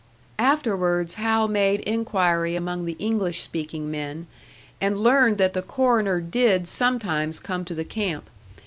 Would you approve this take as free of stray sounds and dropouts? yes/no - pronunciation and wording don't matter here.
yes